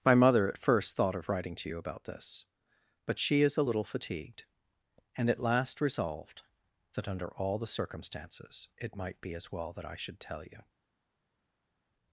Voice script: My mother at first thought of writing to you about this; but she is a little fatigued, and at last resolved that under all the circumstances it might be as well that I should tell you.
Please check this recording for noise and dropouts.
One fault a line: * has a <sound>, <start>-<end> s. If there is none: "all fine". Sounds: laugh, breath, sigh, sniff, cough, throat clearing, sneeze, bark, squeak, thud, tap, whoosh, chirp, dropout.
all fine